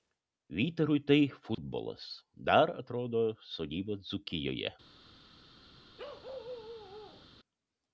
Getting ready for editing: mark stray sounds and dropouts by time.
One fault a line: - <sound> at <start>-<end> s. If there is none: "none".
- dropout at 1.5-1.6 s
- bark at 6.0-7.3 s